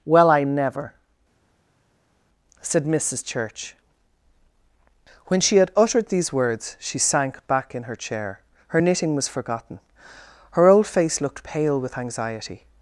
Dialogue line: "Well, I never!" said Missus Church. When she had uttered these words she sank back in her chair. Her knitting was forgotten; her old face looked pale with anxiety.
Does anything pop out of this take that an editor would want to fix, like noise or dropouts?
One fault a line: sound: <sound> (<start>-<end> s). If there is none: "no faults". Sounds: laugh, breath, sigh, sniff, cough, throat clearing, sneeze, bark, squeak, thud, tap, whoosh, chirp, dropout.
no faults